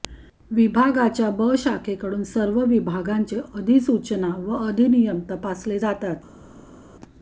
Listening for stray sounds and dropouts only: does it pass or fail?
pass